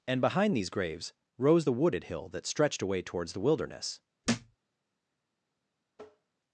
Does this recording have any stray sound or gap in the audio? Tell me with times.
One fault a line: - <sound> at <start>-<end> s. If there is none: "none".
- thud at 4.2-4.6 s
- tap at 5.9-6.3 s